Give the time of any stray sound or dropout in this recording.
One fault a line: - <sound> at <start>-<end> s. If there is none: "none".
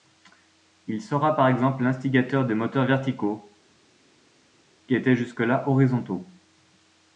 none